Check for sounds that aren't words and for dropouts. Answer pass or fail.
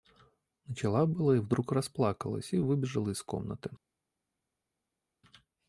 pass